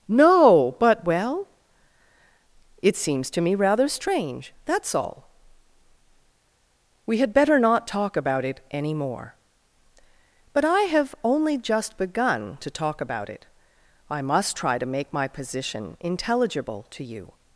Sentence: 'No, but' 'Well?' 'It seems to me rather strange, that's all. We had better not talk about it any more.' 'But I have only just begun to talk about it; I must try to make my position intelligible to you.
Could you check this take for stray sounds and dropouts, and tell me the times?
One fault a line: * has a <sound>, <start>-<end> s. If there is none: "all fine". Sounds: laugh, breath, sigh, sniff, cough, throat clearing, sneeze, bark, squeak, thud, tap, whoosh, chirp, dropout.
all fine